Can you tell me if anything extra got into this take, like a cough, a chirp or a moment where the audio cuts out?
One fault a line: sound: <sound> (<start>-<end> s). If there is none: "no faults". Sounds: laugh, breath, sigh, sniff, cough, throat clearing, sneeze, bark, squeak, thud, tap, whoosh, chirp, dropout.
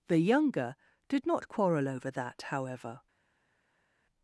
no faults